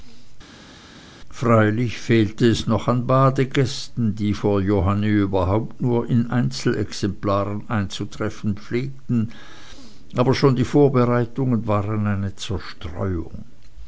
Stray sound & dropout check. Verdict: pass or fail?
pass